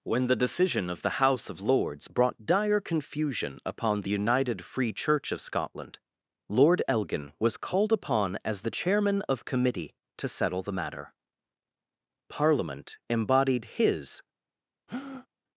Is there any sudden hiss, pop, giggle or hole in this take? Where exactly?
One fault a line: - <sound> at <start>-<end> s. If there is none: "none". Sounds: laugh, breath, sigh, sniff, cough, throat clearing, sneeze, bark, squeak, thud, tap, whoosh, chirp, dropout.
- breath at 14.9-15.3 s